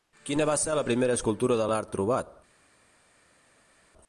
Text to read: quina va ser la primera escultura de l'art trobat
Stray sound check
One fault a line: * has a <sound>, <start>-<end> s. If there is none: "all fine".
all fine